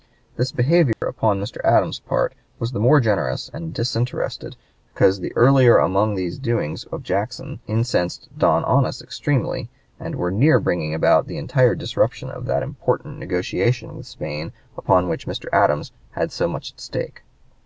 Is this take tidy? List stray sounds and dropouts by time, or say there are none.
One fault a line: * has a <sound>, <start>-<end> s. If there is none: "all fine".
* has a dropout, 0.9-1.0 s